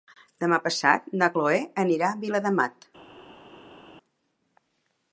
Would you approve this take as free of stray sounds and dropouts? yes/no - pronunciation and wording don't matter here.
yes